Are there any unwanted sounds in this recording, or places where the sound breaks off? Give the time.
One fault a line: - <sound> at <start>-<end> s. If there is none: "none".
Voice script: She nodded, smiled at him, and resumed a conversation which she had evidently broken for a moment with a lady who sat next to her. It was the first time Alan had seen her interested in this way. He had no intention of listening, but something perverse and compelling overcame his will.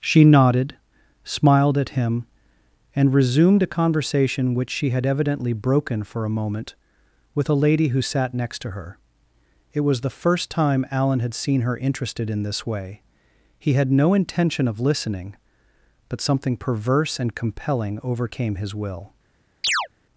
- chirp at 19.6-19.9 s